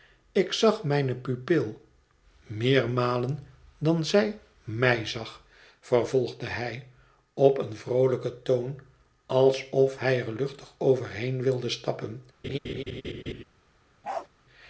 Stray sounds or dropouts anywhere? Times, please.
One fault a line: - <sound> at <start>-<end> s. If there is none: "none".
- laugh at 12.4-13.4 s
- bark at 14.0-14.3 s